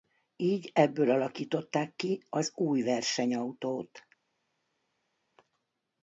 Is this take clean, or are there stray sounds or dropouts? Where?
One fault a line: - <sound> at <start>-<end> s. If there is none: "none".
none